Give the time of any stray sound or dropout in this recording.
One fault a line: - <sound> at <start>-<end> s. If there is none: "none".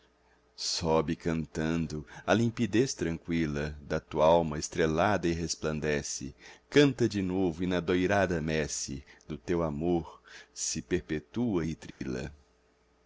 - dropout at 11.9-12.0 s